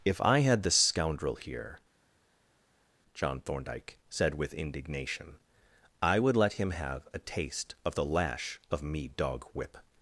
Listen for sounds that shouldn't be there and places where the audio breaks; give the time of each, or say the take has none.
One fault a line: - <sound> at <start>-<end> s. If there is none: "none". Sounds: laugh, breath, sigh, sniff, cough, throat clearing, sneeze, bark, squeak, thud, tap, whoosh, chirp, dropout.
none